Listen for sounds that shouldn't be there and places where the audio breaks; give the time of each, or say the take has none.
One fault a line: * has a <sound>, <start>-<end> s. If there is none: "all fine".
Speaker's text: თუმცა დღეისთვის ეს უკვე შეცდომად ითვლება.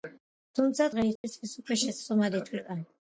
* has a dropout, 1.2-1.2 s